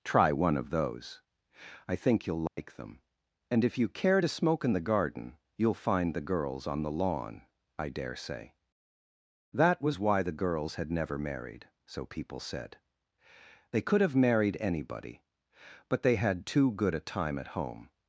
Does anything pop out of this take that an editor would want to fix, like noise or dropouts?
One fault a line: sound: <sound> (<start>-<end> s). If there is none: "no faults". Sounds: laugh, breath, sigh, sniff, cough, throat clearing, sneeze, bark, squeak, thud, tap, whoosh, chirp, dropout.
sound: dropout (2.5-2.6 s)